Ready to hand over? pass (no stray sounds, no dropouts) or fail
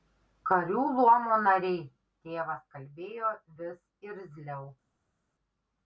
pass